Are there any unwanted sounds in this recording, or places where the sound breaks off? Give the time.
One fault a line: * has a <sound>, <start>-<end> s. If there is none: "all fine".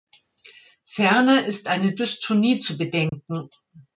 * has a dropout, 3.1-3.1 s